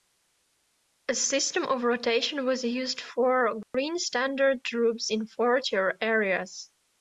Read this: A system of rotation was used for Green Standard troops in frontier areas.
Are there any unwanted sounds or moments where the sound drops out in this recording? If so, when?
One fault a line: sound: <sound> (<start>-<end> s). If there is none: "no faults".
sound: dropout (3.6-3.7 s)